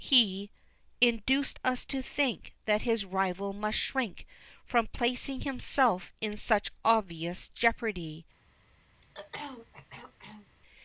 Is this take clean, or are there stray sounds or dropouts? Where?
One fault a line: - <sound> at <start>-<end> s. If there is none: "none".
- throat clearing at 8.9-10.5 s